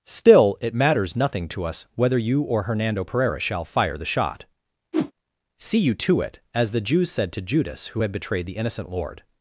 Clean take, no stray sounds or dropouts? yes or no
no